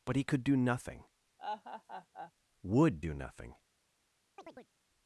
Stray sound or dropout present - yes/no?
yes